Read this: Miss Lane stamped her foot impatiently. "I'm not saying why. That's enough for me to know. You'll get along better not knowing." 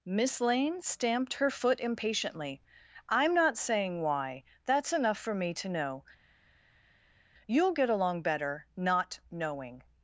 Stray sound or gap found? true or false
false